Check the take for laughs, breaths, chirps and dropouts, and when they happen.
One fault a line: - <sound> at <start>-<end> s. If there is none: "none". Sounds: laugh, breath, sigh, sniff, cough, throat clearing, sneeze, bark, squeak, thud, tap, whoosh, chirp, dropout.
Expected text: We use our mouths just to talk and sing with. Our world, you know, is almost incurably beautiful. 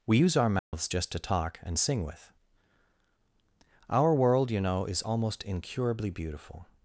- dropout at 0.6-0.7 s